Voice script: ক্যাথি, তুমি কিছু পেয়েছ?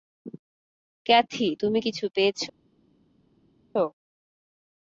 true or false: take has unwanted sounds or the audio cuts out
false